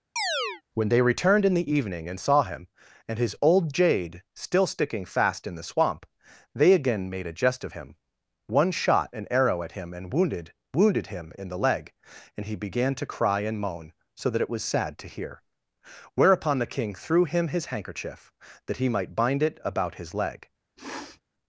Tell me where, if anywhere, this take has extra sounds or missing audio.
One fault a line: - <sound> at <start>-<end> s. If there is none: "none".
- chirp at 0.2-0.6 s
- sniff at 20.8-21.2 s